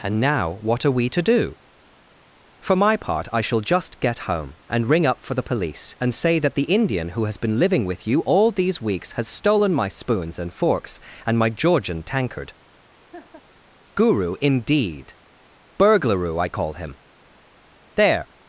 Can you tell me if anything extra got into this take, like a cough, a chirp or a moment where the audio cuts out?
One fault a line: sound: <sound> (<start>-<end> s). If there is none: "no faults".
sound: laugh (13.1-13.4 s)